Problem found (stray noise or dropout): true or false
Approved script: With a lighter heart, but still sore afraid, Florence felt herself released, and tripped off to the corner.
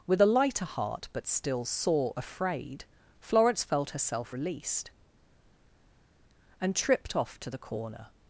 false